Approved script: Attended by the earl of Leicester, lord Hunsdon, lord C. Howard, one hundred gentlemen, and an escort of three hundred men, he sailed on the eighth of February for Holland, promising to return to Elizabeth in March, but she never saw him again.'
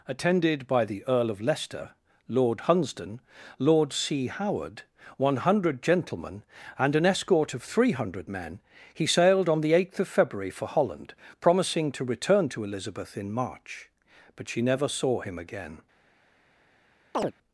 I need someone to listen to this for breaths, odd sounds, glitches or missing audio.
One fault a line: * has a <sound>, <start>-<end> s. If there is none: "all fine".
* has a chirp, 17.1-17.3 s